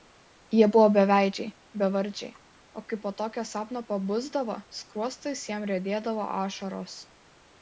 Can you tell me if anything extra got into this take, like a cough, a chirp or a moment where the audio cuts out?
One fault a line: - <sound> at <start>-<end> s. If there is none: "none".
none